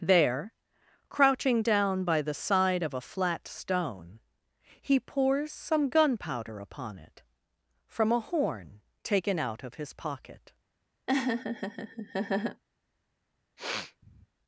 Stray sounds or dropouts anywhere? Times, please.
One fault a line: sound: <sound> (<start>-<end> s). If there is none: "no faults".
sound: laugh (11.1-12.6 s)
sound: sniff (13.6-14.3 s)